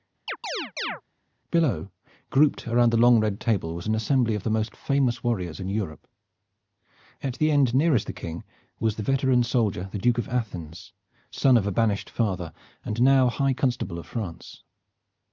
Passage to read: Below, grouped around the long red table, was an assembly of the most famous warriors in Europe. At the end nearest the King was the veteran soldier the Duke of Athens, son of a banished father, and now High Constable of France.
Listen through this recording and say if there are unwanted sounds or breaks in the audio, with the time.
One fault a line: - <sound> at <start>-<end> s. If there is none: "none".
- chirp at 0.3-1.0 s